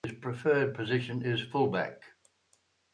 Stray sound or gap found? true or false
false